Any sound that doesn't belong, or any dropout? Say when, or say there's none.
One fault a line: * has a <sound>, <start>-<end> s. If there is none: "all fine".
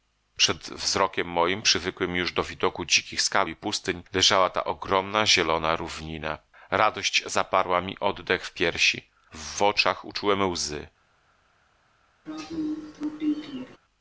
* has a throat clearing, 12.3-13.8 s